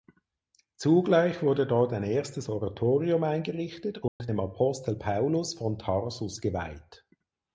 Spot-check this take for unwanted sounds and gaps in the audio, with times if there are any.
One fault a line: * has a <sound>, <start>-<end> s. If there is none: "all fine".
* has a dropout, 4.1-4.2 s